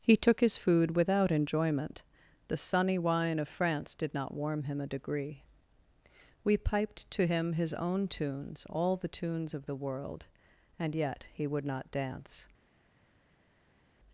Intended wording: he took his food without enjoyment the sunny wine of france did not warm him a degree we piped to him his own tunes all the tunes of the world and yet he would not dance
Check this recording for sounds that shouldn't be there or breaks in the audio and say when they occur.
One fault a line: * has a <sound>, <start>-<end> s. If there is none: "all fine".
all fine